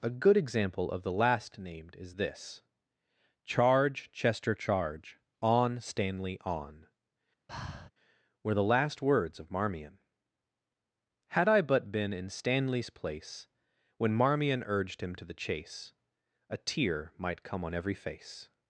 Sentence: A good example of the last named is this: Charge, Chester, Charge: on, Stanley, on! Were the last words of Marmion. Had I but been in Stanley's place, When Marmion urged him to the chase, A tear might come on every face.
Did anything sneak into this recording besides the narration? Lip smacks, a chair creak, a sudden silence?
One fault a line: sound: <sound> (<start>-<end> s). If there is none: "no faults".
sound: breath (7.5-7.9 s)